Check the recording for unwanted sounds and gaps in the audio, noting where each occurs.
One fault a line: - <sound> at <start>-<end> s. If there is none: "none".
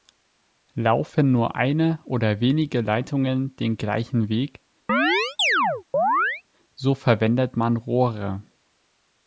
- chirp at 4.9-6.4 s